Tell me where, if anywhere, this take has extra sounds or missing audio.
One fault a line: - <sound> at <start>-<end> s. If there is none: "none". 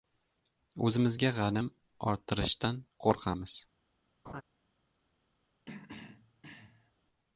- laugh at 4.2-4.4 s
- throat clearing at 5.7-6.9 s